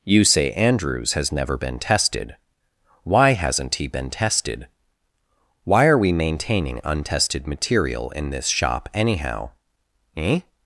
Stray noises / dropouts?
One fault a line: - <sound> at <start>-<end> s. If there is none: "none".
none